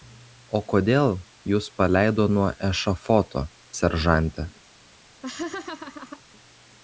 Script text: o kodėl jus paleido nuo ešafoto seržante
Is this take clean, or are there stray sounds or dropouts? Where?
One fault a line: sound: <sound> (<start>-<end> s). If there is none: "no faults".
sound: laugh (5.2-6.2 s)